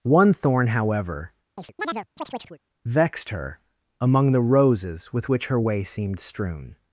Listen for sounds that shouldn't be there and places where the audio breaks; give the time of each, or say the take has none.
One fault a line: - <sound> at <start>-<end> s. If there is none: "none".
- chirp at 1.6-2.6 s